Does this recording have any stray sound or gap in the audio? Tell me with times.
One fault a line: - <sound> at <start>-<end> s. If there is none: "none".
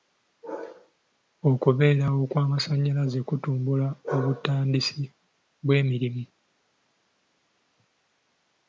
none